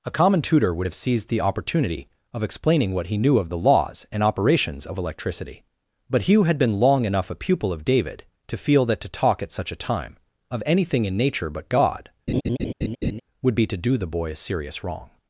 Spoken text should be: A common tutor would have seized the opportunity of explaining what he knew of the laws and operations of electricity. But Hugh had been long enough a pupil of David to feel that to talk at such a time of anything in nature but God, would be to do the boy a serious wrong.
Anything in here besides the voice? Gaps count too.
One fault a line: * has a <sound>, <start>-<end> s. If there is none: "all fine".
* has a laugh, 12.3-13.2 s